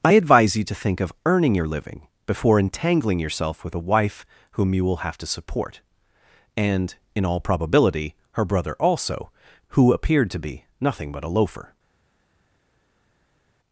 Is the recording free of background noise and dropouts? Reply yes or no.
yes